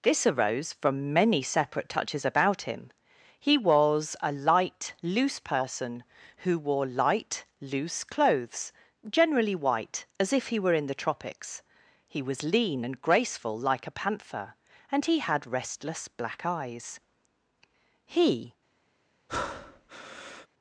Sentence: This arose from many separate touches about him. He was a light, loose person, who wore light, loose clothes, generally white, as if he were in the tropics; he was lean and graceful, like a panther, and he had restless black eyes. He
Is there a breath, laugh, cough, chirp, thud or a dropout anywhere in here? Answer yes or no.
yes